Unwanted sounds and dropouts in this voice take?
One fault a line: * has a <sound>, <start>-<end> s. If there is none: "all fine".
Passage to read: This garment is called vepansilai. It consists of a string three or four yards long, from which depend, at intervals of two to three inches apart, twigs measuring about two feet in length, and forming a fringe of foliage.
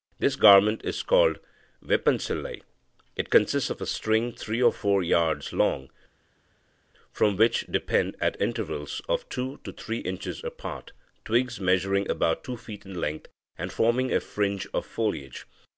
all fine